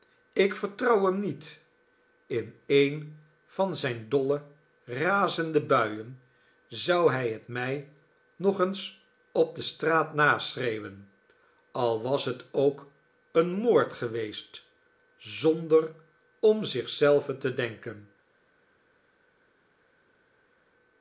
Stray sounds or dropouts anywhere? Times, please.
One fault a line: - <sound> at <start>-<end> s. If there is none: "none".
none